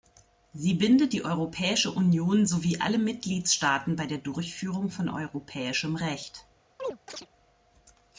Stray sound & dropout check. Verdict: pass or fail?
fail